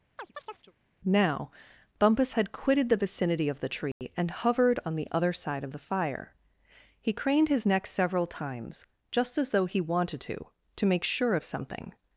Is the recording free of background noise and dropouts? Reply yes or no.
no